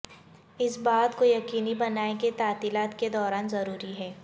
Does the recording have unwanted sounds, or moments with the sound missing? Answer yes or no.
no